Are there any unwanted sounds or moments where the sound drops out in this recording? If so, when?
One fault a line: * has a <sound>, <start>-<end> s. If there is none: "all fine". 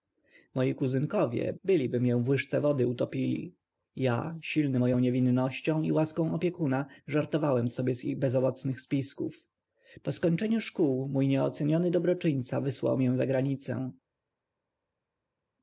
all fine